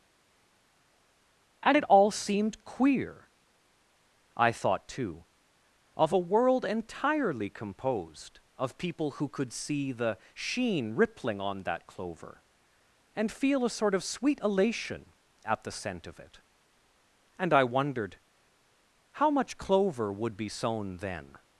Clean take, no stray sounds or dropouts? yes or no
yes